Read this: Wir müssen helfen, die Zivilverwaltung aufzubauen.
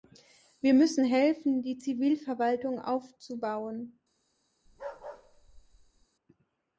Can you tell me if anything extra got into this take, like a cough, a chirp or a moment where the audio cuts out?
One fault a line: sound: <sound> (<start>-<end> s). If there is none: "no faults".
sound: bark (4.7-6.1 s)